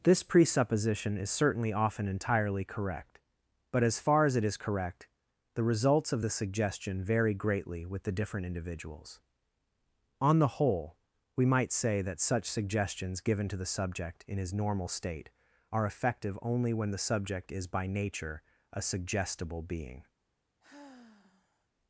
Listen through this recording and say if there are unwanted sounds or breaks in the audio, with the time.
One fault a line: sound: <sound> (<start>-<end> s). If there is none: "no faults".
sound: sigh (20.6-21.7 s)